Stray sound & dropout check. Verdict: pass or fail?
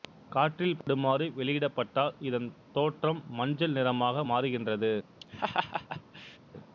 fail